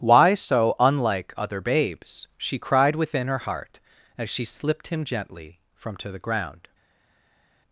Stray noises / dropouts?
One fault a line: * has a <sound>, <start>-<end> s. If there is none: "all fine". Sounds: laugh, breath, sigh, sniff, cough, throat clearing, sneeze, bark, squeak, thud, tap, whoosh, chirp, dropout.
all fine